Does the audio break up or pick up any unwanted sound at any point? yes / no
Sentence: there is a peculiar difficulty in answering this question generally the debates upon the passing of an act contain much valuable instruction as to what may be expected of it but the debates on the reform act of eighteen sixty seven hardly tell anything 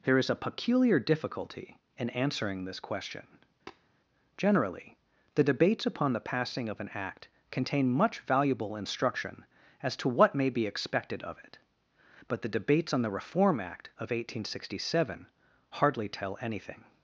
yes